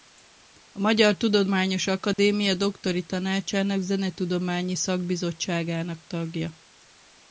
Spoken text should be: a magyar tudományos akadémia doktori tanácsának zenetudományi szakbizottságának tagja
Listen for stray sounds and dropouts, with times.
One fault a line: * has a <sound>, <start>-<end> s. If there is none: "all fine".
* has a dropout, 2.1-2.2 s